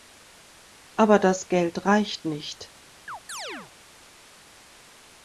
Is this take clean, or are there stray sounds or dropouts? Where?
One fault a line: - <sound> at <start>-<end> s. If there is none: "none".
- chirp at 3.1-3.7 s